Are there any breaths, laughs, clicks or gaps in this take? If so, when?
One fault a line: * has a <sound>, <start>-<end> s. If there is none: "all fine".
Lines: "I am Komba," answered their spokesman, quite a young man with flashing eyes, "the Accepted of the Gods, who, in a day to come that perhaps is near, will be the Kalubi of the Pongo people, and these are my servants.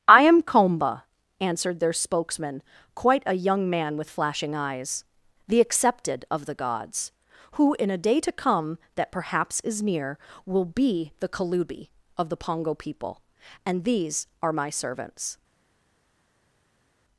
all fine